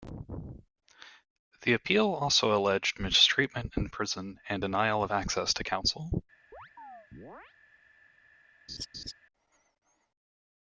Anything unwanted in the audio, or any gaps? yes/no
yes